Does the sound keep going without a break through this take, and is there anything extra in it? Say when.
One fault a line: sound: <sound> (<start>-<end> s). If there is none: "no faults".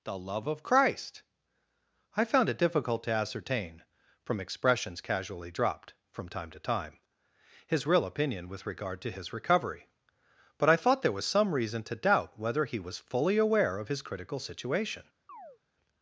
sound: chirp (15.3-15.6 s)